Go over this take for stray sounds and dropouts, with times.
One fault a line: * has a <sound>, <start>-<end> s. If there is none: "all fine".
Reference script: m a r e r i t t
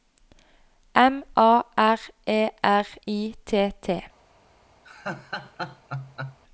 * has a laugh, 4.8-6.4 s